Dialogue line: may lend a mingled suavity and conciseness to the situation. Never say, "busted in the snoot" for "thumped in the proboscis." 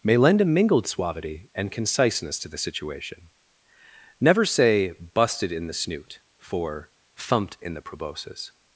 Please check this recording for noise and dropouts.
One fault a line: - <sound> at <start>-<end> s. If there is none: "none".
none